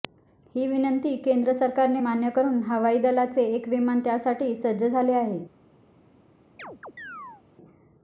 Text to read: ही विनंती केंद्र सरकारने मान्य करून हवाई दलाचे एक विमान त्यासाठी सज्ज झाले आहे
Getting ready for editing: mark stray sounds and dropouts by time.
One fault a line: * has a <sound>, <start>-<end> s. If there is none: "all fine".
* has a chirp, 6.6-7.4 s